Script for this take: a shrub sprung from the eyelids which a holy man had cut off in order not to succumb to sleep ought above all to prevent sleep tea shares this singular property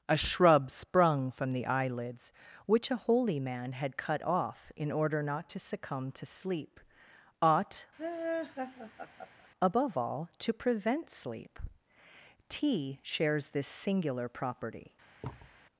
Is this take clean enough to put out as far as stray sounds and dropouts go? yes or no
no